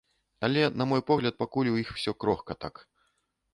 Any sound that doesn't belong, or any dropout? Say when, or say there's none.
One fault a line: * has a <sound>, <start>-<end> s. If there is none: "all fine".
all fine